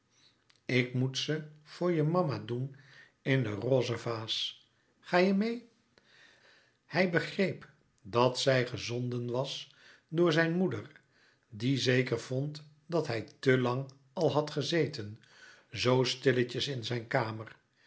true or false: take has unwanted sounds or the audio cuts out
false